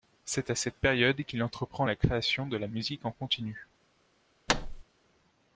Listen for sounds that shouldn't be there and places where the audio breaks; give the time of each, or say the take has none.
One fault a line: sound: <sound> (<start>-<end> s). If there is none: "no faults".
sound: thud (4.5-4.8 s)